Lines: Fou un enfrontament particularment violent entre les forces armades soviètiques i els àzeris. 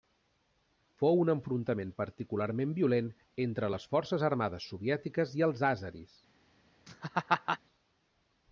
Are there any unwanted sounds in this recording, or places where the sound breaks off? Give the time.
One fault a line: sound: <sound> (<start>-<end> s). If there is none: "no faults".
sound: laugh (6.9-7.6 s)